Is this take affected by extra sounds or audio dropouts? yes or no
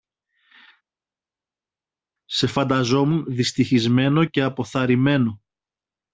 no